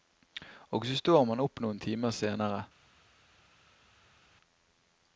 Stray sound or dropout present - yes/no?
no